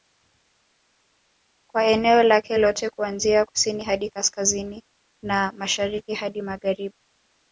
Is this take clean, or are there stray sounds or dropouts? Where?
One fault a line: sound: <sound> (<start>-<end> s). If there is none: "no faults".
no faults